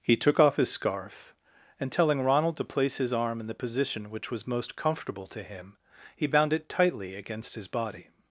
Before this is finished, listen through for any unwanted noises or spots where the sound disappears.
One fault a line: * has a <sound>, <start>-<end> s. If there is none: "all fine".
all fine